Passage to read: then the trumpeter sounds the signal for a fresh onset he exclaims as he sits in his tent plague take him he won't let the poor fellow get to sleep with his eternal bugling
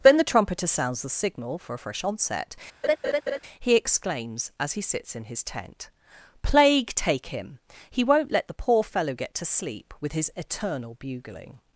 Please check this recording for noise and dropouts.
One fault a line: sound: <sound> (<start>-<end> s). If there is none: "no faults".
sound: laugh (2.8-3.4 s)